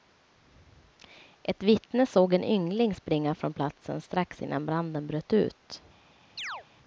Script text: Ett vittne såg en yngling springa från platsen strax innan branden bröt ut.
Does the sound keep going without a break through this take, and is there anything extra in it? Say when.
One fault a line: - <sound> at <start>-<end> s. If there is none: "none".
- chirp at 6.4-6.7 s